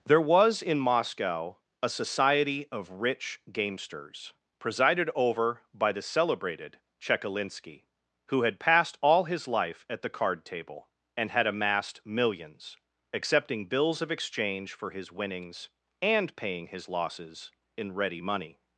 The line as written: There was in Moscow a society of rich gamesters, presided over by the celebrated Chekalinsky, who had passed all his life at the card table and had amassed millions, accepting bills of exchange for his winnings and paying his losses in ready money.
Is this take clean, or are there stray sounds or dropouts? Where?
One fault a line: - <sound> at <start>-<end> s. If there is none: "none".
none